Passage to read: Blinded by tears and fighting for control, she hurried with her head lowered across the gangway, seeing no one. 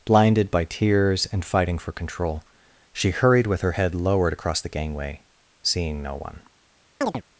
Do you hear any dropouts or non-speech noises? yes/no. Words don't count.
yes